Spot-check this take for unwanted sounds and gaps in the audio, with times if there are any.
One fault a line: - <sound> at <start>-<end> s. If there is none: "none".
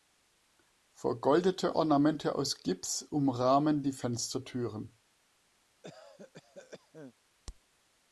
- cough at 5.8-7.1 s